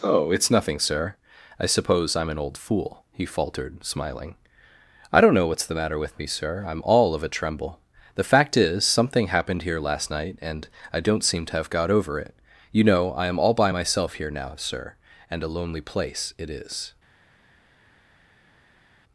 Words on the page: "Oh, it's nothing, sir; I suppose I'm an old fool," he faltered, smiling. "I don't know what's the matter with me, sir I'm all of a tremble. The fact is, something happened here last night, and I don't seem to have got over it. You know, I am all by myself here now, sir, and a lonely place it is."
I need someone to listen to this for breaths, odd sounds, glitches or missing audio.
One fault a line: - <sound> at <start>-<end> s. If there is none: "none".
none